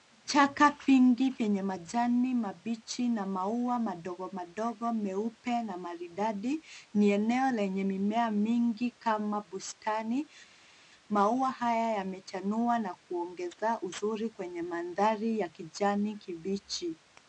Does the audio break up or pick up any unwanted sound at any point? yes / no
no